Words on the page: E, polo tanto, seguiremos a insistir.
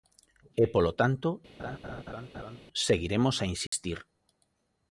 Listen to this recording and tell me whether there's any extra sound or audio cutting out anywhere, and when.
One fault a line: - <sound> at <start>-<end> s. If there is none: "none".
- laugh at 1.6-2.6 s
- dropout at 3.7-3.7 s